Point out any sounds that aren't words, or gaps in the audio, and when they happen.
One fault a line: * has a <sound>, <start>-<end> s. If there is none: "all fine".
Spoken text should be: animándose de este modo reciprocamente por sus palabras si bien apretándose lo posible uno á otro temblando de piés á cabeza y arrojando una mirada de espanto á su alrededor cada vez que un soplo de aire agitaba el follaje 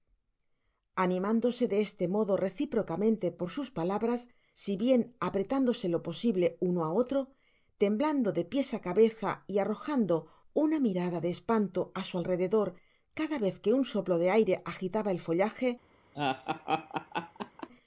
* has a laugh, 16.1-17.7 s